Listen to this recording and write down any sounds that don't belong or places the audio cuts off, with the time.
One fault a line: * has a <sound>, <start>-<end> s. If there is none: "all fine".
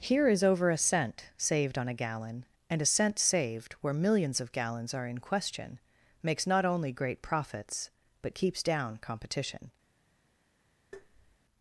* has a tap, 10.9-11.4 s